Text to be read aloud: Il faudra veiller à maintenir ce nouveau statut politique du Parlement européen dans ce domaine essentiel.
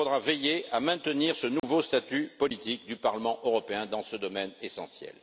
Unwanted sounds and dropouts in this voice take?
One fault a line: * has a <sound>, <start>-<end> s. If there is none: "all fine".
* has a dropout, 1.6-1.6 s